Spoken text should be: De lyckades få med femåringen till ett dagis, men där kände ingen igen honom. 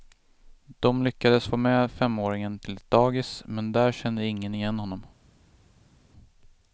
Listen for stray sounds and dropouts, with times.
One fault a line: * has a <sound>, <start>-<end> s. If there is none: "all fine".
all fine